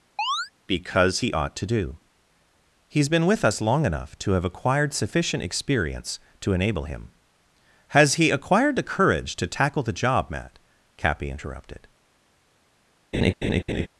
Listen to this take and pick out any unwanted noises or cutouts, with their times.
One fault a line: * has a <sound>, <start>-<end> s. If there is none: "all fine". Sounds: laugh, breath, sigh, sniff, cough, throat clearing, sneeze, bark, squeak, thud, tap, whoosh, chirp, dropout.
* has a chirp, 0.2-0.5 s
* has a laugh, 13.1-13.9 s